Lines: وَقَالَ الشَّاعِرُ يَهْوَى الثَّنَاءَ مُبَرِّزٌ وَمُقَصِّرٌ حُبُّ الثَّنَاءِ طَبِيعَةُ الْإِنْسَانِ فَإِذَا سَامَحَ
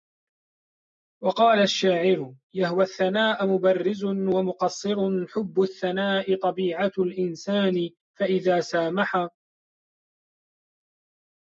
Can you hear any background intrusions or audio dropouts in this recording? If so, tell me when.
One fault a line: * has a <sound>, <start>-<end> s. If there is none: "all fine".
all fine